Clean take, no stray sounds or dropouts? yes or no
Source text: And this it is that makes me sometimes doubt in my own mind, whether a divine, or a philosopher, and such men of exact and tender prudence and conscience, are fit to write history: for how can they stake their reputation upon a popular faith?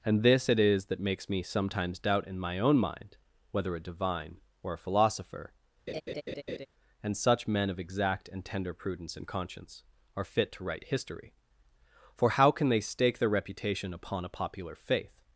no